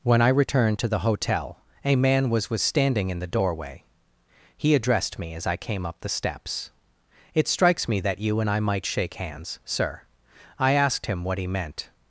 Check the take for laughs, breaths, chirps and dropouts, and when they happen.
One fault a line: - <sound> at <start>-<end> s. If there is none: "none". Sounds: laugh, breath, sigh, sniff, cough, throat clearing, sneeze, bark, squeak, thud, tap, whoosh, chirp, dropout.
none